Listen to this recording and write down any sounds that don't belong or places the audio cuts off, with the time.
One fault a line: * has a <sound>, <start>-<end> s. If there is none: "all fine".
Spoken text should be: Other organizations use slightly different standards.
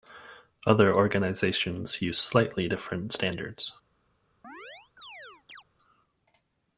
* has a chirp, 4.4-5.6 s